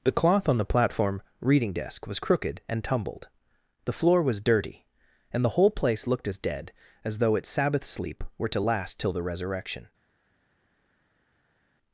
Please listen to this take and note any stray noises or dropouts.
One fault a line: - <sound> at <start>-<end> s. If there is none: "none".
none